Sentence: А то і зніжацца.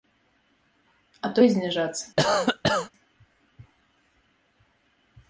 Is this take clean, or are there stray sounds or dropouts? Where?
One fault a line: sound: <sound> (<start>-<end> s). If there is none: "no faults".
sound: cough (2.2-2.9 s)